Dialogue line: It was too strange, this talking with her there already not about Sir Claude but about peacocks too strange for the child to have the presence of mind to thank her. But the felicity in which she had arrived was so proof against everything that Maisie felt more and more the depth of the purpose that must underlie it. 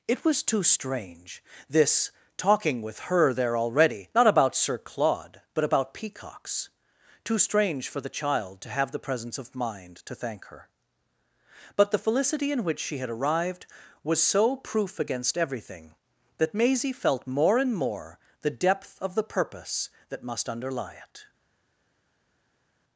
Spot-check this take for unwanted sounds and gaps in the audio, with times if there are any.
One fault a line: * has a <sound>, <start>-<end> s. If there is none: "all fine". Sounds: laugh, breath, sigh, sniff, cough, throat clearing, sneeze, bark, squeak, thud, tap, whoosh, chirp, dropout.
all fine